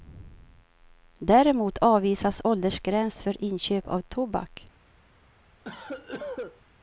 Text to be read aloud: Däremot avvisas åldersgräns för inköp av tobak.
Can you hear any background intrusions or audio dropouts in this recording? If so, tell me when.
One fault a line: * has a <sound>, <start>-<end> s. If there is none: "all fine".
* has a cough, 5.6-6.6 s